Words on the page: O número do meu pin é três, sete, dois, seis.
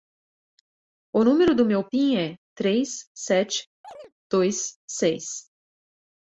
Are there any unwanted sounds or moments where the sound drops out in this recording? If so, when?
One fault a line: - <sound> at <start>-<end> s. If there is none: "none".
- chirp at 3.8-4.1 s